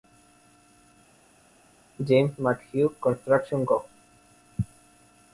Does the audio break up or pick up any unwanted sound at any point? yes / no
no